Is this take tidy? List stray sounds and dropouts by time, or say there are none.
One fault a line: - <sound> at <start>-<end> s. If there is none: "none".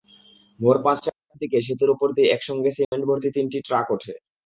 - dropout at 2.8-2.9 s